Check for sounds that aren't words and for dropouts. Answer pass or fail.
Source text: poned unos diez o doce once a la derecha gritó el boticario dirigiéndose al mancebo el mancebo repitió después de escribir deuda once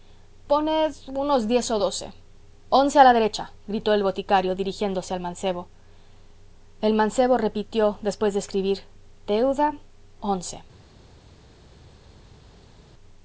pass